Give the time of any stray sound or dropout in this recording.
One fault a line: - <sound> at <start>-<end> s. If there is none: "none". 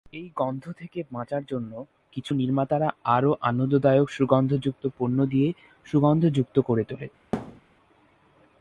- thud at 7.3-7.6 s